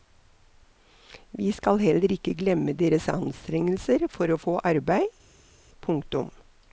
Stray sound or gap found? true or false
false